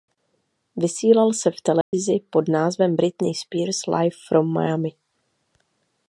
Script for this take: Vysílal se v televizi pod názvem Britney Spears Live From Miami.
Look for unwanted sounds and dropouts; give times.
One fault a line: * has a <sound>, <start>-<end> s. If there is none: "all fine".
* has a dropout, 1.8-1.9 s